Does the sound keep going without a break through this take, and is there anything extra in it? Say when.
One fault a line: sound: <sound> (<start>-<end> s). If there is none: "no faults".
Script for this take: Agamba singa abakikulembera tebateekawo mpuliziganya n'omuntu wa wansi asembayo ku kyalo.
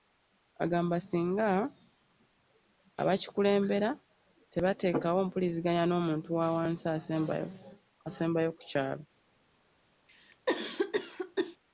sound: cough (10.1-11.6 s)